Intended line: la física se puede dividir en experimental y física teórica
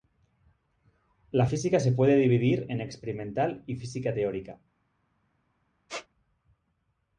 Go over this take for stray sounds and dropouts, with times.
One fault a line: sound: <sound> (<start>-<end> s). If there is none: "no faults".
sound: squeak (5.9-6.1 s)